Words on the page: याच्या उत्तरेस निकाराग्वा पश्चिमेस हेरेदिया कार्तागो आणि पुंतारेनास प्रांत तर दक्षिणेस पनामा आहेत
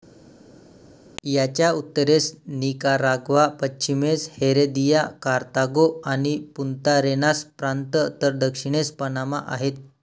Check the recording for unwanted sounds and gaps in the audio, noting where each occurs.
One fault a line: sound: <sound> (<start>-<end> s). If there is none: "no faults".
no faults